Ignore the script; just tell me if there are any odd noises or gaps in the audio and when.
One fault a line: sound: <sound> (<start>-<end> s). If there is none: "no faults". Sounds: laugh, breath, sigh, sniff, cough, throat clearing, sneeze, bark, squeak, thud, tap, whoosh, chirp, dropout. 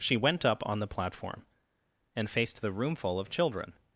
no faults